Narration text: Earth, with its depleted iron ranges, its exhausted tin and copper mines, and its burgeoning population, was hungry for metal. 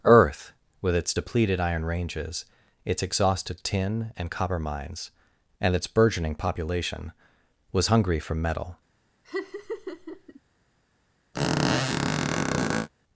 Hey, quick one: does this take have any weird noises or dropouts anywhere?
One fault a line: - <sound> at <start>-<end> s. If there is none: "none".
- laugh at 9.2-10.4 s
- squeak at 11.3-12.9 s